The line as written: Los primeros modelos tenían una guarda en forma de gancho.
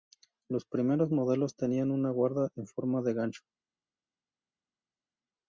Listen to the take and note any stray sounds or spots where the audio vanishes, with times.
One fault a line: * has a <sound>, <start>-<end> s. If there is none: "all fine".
all fine